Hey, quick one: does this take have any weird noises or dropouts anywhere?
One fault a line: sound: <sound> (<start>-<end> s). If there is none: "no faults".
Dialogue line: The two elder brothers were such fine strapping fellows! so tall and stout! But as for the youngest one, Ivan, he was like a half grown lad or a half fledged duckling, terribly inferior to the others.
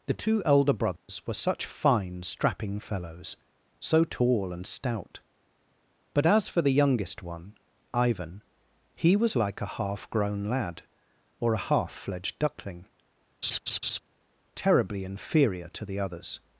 sound: dropout (1.0-1.1 s)
sound: laugh (13.4-14.0 s)